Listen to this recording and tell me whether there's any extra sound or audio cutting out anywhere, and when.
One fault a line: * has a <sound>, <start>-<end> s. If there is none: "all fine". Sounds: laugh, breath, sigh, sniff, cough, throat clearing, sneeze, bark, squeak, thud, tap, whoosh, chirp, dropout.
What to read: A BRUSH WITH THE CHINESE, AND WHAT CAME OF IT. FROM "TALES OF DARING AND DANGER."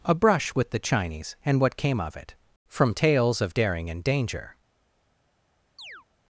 * has a chirp, 5.8-6.1 s